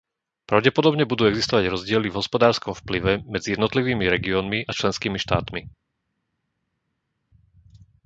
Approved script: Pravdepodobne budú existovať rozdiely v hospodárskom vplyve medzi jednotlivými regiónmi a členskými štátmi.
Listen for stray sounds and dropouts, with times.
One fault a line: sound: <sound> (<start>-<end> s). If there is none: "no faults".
no faults